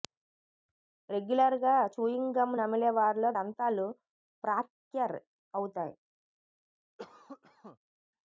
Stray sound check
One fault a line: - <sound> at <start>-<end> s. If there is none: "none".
- cough at 7.0-7.8 s